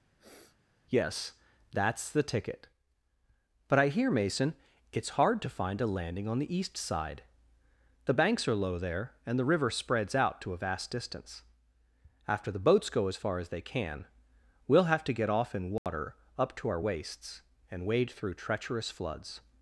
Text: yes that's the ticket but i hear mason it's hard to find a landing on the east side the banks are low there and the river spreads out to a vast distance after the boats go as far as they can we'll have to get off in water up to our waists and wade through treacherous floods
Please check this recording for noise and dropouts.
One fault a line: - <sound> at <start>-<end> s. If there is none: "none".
- sniff at 0.2-0.6 s
- dropout at 15.8-15.9 s